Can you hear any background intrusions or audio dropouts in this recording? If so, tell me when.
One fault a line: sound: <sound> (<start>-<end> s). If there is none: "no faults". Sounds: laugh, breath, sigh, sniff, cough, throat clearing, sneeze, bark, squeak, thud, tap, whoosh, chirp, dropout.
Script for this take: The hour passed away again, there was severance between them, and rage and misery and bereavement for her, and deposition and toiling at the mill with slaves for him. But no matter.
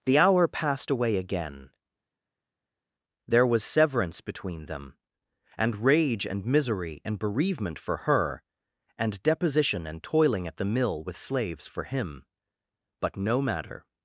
no faults